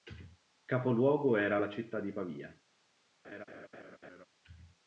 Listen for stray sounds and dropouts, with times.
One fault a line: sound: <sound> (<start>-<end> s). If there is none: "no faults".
sound: laugh (3.2-4.3 s)